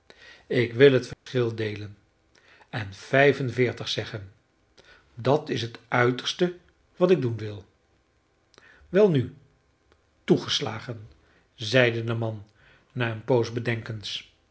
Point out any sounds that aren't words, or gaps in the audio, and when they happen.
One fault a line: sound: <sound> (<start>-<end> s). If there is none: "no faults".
sound: dropout (1.1-1.3 s)